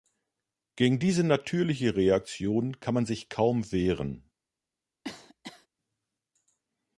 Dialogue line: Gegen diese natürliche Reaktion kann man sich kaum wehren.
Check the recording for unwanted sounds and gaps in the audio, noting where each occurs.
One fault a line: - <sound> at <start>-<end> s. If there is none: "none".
- cough at 5.0-5.7 s